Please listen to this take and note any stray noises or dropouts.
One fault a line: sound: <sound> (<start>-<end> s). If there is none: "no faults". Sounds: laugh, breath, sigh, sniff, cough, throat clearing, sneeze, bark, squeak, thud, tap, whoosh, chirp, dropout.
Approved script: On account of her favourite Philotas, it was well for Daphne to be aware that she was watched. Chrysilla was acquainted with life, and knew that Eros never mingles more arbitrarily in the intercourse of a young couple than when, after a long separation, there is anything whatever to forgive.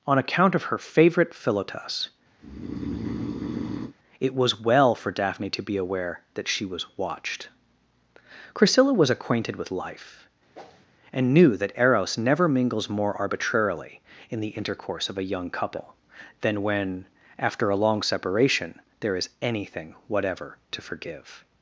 sound: breath (2.4-3.9 s)
sound: whoosh (10.5-10.9 s)